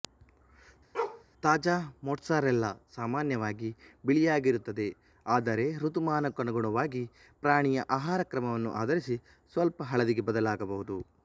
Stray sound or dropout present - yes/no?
yes